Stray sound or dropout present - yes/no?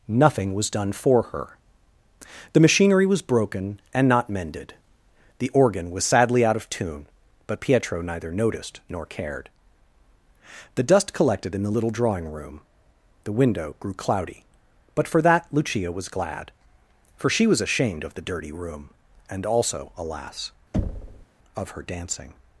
yes